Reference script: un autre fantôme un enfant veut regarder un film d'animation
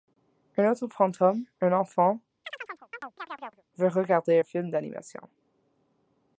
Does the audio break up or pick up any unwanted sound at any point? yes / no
yes